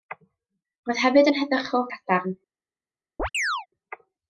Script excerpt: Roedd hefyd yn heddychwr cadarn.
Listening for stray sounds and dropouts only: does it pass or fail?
fail